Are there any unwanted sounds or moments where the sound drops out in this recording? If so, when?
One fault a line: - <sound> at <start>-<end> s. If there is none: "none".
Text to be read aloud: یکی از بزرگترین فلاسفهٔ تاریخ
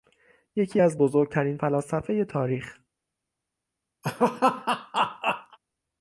- laugh at 4.0-5.6 s